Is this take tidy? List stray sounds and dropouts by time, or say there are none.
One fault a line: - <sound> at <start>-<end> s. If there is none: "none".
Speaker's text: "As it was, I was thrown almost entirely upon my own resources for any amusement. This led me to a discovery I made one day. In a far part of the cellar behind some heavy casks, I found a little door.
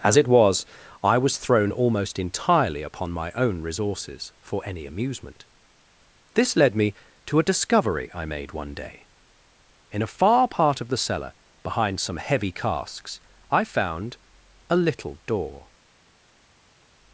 none